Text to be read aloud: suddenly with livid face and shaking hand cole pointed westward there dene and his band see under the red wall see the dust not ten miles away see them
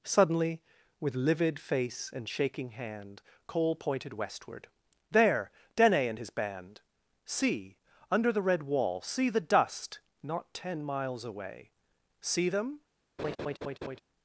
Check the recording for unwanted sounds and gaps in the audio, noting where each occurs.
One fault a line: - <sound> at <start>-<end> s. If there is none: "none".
- laugh at 13.2-14.0 s